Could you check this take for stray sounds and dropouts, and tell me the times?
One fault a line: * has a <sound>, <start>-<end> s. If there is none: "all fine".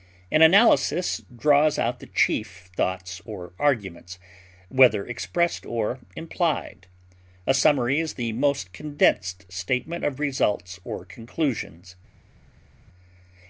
all fine